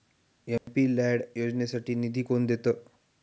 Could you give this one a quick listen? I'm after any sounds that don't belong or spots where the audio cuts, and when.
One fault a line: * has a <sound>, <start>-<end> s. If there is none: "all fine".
* has a dropout, 0.6-0.7 s